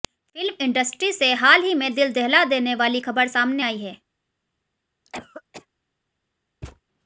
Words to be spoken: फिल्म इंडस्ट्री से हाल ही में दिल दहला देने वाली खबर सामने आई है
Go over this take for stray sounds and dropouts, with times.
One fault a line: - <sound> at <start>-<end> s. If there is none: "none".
- cough at 5.1-5.7 s
- thud at 6.6-6.8 s